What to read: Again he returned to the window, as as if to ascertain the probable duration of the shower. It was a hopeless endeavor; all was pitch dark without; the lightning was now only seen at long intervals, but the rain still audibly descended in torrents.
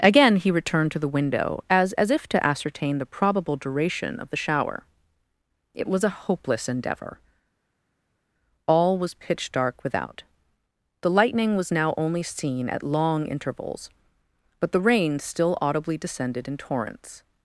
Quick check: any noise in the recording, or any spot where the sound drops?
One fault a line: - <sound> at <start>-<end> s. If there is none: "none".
none